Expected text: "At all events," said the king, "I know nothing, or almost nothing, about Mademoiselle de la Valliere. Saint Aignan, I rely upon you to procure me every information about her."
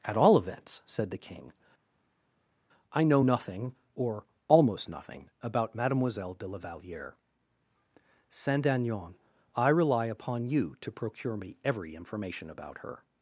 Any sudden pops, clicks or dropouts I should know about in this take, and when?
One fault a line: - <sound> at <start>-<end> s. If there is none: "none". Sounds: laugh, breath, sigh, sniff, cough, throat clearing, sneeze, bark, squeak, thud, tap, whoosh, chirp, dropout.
none